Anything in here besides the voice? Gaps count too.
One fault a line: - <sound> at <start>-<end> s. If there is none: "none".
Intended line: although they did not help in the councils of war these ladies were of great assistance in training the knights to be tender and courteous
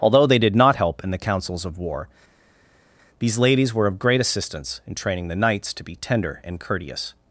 none